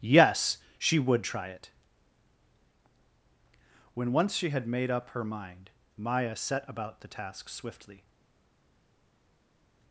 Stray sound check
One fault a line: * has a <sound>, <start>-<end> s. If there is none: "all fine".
all fine